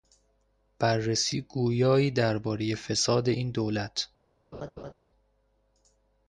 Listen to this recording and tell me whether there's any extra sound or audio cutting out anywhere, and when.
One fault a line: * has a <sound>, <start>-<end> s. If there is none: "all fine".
* has a laugh, 4.5-4.9 s